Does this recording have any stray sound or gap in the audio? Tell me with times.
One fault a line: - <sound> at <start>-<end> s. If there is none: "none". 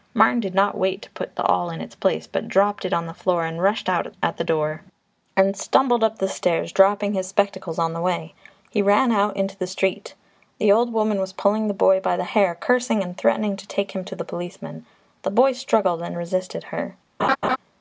- laugh at 17.2-17.6 s